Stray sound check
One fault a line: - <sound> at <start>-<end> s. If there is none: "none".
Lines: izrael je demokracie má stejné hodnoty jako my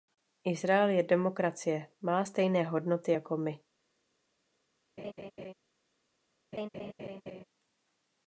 - laugh at 5.0-5.5 s
- laugh at 6.5-7.4 s